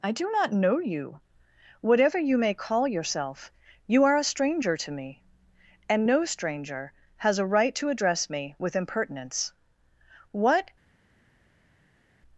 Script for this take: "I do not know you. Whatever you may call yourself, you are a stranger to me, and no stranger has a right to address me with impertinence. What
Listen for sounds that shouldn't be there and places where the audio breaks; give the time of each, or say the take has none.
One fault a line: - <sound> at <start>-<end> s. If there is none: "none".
none